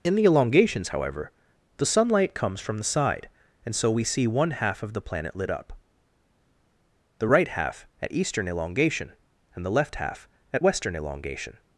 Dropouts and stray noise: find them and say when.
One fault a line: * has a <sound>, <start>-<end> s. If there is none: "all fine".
all fine